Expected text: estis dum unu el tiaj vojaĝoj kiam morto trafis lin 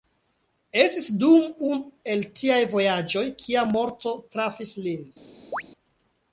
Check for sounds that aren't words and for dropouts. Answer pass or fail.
fail